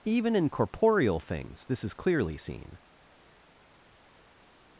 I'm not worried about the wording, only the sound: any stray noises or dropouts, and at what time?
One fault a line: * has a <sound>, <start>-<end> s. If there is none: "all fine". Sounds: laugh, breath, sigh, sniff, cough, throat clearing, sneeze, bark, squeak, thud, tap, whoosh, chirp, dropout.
all fine